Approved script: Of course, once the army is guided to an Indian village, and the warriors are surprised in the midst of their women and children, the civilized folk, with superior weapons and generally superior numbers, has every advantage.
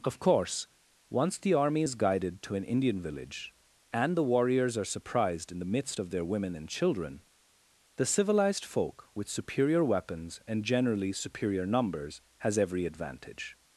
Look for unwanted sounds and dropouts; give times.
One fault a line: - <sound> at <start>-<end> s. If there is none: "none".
none